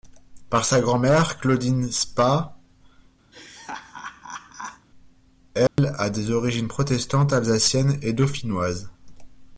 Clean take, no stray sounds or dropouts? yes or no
no